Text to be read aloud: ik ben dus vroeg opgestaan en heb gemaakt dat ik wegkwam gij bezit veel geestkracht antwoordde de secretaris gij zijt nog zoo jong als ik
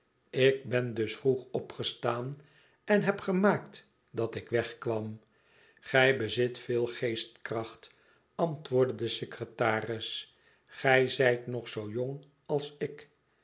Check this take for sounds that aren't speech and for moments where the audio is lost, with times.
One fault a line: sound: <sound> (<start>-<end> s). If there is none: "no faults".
no faults